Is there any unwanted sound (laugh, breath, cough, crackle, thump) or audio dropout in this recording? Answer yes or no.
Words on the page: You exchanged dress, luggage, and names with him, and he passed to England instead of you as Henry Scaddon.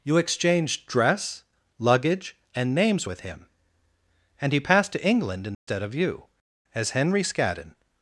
yes